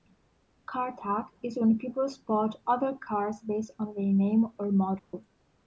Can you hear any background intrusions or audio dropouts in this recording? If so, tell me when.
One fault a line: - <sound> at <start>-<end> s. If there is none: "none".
- dropout at 5.0-5.1 s